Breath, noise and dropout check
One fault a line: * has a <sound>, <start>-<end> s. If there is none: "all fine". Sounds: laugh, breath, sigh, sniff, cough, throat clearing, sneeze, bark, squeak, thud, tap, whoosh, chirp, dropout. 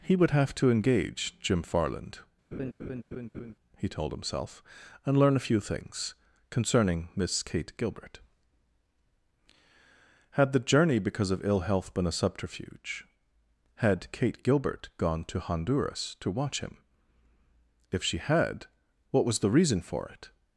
* has a laugh, 2.5-3.5 s